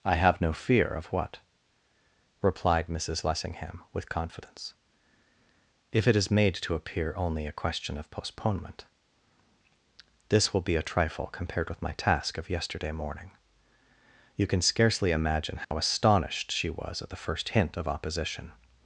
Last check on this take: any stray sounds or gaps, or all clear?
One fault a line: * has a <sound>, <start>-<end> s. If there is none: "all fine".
* has a dropout, 15.6-15.7 s